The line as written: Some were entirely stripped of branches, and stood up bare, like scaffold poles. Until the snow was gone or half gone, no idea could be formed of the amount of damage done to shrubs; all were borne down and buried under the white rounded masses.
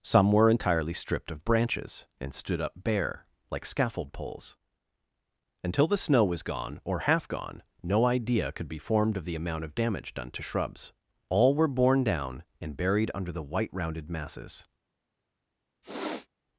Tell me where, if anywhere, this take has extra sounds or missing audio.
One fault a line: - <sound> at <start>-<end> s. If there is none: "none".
- sniff at 15.8-16.3 s